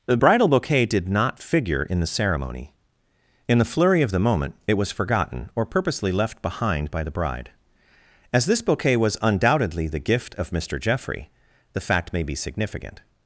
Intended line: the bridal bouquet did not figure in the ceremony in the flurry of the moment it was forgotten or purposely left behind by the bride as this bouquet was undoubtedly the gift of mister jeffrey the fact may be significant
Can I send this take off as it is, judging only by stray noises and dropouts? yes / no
yes